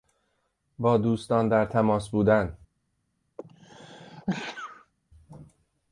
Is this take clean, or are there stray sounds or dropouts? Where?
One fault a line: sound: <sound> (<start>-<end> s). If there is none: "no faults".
sound: sneeze (3.4-4.9 s)